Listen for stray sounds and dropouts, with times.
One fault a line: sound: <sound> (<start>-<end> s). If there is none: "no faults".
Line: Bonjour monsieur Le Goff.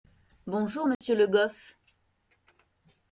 sound: dropout (0.9-1.0 s)